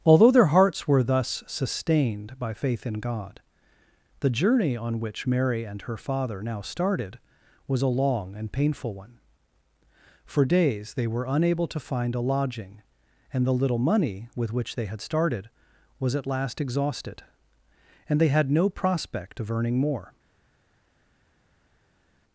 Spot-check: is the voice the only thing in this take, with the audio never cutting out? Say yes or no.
yes